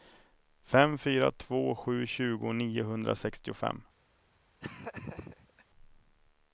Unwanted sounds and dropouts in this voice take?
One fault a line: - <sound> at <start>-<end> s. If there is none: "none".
- laugh at 4.6-5.6 s